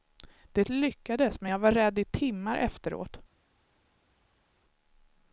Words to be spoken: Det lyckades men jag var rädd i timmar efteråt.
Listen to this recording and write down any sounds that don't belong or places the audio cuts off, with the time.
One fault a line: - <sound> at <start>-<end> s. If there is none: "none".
none